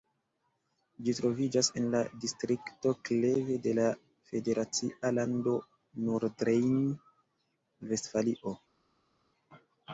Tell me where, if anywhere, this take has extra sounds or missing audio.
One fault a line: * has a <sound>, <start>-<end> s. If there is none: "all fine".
all fine